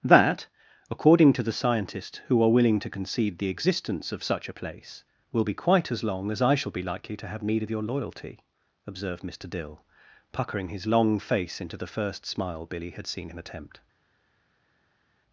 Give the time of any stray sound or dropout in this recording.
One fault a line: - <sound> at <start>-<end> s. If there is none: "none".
none